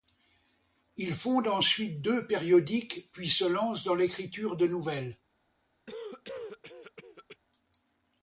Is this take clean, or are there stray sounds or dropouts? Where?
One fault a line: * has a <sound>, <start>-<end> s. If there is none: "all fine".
* has a cough, 5.9-7.4 s